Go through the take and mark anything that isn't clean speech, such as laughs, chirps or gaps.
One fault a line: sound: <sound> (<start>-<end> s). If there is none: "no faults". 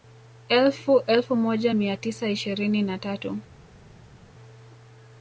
no faults